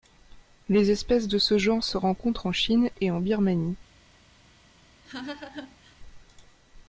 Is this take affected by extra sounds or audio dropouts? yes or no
yes